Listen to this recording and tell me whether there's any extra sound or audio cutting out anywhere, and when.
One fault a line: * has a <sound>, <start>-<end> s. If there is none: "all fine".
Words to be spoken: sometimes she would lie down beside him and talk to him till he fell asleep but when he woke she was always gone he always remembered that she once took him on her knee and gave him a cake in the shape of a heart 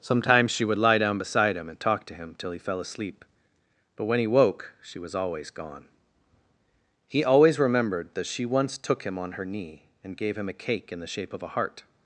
all fine